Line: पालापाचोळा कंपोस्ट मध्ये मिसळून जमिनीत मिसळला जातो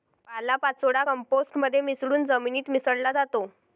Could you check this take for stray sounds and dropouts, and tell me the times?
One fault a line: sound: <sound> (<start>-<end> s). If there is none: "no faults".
no faults